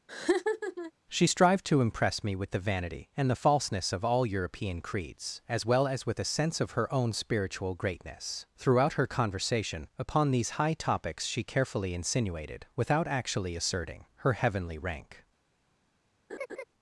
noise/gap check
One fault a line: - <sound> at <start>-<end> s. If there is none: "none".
- laugh at 0.1-0.9 s
- laugh at 16.3-16.6 s